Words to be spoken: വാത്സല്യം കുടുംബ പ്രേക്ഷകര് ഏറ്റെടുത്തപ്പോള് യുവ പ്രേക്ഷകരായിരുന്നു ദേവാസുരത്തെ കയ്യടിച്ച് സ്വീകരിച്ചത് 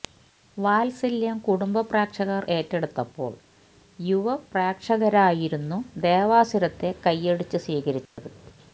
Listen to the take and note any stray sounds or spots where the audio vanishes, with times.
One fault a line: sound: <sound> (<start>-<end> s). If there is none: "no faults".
sound: dropout (8.1-8.2 s)